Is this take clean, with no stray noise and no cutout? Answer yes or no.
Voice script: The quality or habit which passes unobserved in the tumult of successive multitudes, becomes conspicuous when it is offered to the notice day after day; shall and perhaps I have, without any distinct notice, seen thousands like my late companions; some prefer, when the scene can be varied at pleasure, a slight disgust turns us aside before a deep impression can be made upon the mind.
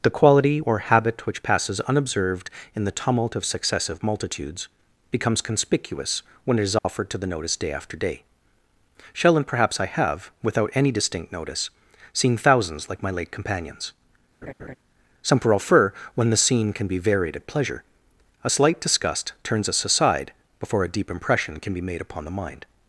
no